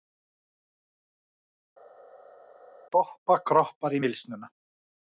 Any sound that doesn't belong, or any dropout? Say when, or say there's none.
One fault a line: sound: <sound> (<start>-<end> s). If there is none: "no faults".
no faults